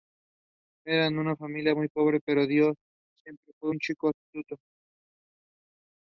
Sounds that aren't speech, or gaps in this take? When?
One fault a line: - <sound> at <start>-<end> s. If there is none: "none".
none